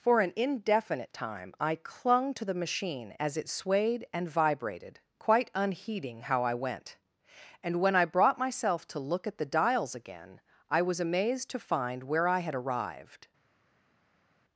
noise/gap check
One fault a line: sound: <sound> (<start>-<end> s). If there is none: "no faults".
no faults